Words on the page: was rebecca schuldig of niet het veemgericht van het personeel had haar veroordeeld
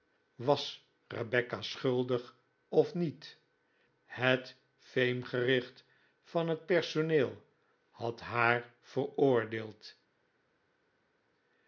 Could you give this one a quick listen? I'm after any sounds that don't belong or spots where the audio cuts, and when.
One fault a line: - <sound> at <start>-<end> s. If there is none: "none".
none